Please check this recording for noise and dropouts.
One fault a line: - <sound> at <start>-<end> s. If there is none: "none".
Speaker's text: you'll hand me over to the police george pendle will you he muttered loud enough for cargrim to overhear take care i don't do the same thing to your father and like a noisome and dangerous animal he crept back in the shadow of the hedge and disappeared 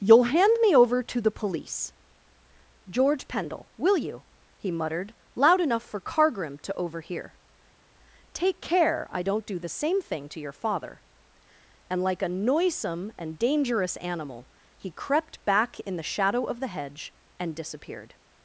none